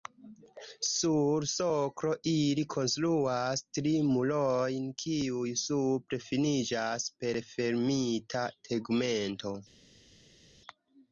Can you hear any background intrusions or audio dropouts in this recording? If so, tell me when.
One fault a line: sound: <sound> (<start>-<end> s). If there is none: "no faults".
no faults